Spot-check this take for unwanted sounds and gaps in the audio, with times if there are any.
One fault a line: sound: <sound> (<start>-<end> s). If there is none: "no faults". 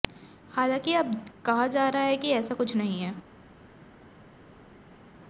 no faults